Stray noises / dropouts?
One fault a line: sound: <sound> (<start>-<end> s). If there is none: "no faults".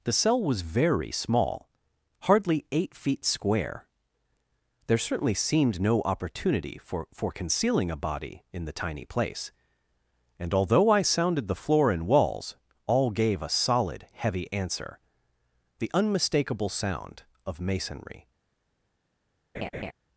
sound: laugh (19.5-19.9 s)